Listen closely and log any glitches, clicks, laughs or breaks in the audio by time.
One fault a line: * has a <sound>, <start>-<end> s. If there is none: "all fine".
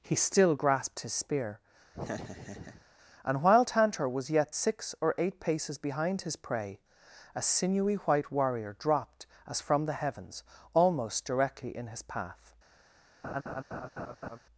* has a laugh, 1.9-2.9 s
* has a laugh, 13.2-14.4 s